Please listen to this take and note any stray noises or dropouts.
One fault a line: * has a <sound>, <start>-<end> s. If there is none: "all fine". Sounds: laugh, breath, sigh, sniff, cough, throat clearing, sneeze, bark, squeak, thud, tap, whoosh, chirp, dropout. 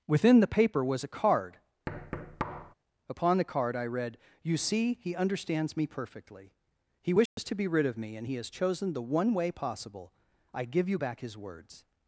* has a thud, 1.9-2.7 s
* has a dropout, 7.3-7.4 s